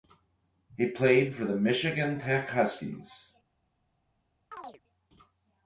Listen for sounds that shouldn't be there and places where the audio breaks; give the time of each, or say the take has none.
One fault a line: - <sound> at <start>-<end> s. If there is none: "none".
- chirp at 4.5-4.8 s